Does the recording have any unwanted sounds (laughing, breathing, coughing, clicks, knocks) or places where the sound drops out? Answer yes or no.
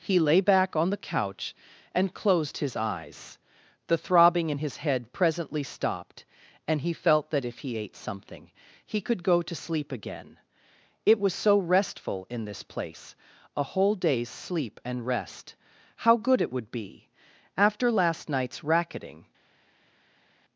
no